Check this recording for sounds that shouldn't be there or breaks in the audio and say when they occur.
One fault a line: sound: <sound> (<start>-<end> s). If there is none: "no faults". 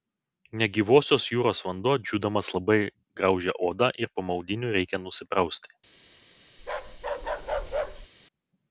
sound: bark (6.6-8.1 s)